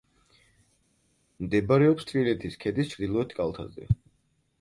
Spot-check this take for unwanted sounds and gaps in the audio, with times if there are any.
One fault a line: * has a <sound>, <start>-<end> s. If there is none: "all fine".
all fine